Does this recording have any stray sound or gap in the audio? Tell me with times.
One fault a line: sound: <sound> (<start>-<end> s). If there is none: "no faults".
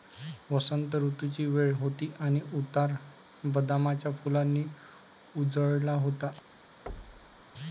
sound: thud (6.9-7.4 s)